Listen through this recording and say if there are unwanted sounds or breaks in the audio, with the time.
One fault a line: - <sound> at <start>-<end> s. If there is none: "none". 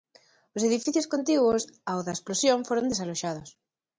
none